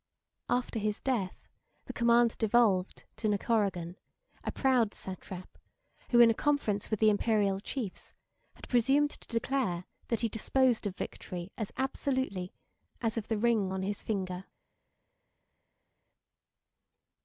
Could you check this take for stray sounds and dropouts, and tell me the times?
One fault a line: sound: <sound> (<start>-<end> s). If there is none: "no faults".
no faults